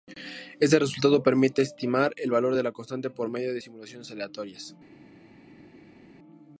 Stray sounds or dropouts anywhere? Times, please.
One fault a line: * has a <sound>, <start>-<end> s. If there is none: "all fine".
all fine